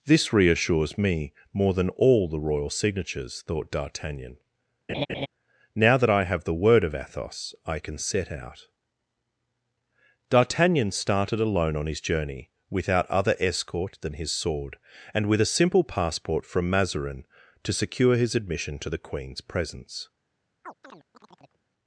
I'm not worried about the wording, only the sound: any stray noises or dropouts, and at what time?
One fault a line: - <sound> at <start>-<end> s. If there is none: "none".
- laugh at 4.9-5.3 s
- chirp at 20.6-21.6 s